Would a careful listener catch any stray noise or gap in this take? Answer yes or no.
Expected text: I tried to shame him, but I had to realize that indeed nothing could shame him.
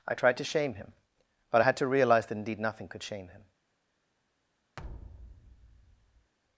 yes